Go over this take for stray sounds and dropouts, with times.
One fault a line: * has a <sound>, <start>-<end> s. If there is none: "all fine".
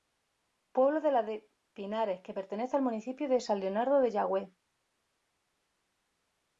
all fine